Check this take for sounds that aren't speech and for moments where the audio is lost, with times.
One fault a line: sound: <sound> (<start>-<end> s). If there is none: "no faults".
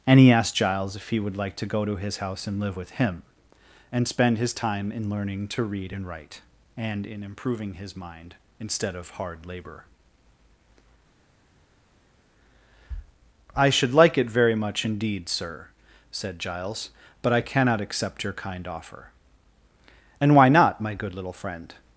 no faults